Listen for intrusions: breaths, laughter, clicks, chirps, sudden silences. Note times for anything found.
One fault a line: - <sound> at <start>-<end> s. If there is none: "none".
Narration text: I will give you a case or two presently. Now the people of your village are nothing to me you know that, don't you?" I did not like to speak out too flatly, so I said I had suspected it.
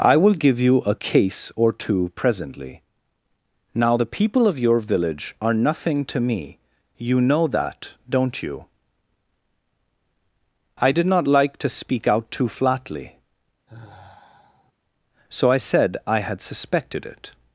- sigh at 13.7-14.7 s